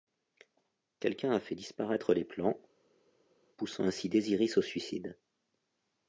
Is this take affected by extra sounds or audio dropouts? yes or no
no